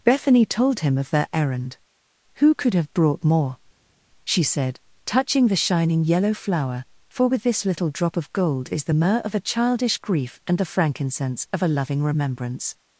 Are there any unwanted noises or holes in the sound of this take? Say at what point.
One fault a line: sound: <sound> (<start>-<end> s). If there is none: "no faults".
no faults